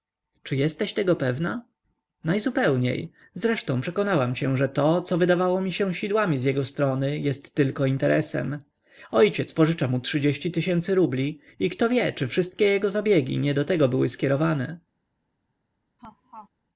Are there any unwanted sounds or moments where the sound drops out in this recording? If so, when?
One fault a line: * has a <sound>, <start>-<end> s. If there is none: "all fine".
* has a laugh, 16.0-16.5 s